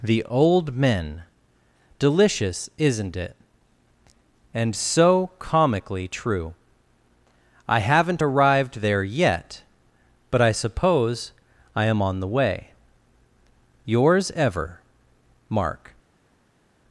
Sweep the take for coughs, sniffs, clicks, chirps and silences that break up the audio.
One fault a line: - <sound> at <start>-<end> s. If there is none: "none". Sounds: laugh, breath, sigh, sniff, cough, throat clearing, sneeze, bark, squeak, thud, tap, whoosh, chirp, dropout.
none